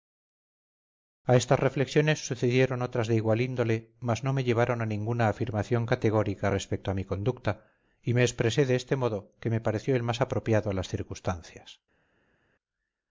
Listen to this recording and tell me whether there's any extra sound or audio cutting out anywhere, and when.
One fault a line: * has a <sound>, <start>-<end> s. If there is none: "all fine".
all fine